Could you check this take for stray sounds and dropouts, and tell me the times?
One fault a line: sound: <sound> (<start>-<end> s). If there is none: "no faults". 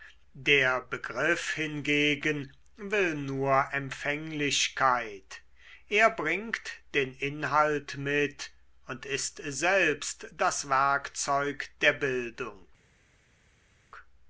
no faults